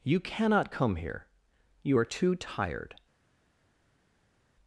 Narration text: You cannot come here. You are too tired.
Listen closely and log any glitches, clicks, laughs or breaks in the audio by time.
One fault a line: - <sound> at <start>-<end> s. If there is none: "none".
none